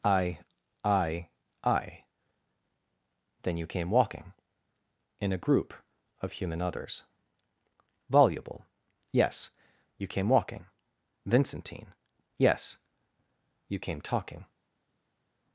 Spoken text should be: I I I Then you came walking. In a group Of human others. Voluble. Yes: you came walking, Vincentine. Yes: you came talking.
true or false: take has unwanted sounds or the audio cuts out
false